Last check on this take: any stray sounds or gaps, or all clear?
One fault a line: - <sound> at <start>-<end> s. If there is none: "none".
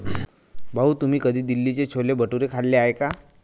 none